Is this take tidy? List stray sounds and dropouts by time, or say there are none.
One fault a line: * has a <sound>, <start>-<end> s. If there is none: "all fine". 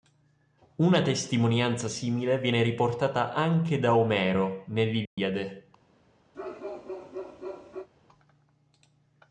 * has a dropout, 5.1-5.2 s
* has a bark, 6.3-7.9 s